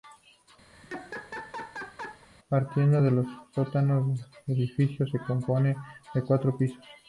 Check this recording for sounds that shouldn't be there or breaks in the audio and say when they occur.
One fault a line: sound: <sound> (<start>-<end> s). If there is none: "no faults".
sound: laugh (0.7-2.3 s)